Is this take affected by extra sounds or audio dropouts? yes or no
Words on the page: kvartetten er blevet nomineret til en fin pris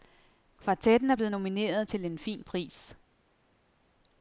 no